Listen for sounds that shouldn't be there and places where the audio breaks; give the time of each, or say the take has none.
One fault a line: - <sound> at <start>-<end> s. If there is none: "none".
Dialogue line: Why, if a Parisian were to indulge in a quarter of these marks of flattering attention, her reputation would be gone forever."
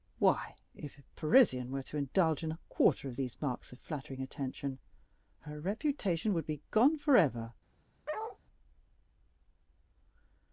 - bark at 8.1-8.4 s